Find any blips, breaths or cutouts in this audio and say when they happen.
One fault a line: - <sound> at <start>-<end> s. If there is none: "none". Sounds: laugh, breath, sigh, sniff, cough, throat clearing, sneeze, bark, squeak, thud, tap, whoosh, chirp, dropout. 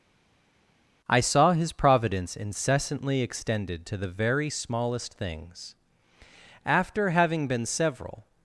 none